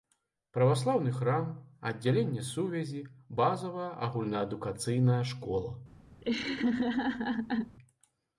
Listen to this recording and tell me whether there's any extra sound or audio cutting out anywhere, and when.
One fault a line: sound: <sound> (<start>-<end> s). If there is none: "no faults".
sound: laugh (6.2-7.8 s)